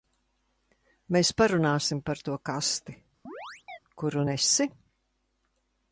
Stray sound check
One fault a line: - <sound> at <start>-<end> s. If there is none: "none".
- chirp at 3.3-3.8 s